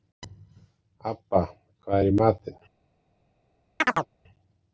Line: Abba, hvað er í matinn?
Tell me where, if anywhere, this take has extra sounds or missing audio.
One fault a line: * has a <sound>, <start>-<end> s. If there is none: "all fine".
* has a chirp, 3.8-4.1 s